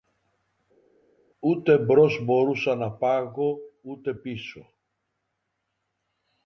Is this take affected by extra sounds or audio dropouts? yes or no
no